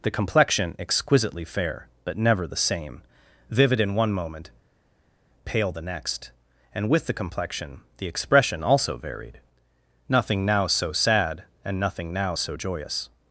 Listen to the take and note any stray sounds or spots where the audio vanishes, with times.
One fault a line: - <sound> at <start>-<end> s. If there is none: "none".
none